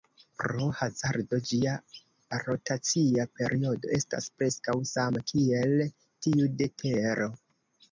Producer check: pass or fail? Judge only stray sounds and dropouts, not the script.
pass